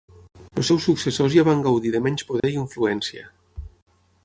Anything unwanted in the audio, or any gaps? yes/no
yes